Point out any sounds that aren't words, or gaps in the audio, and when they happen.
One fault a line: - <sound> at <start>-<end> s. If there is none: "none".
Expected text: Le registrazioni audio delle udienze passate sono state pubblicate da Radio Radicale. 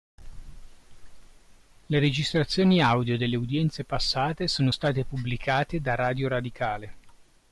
none